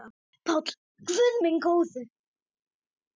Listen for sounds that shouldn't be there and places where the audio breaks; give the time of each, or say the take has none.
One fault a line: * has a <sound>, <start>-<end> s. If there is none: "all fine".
all fine